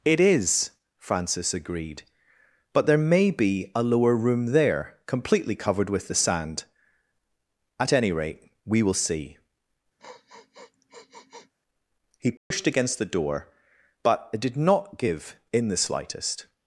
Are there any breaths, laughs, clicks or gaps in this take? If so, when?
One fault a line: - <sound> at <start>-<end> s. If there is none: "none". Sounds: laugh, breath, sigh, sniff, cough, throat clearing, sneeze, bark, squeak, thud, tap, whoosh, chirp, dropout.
- sniff at 10.0-11.5 s
- dropout at 12.4-12.5 s